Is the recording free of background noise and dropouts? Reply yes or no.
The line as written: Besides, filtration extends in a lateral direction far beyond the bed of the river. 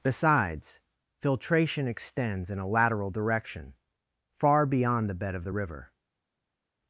yes